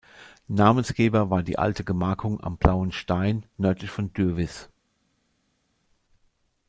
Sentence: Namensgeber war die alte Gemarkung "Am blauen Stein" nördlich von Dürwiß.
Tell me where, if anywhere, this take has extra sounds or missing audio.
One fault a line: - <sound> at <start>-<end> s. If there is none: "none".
none